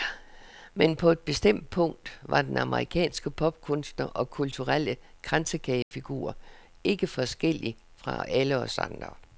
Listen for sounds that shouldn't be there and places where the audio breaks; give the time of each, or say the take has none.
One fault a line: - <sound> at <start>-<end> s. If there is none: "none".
- dropout at 5.8-5.9 s